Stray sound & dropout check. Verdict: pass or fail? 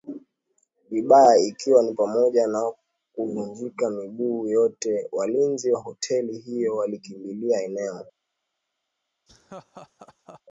fail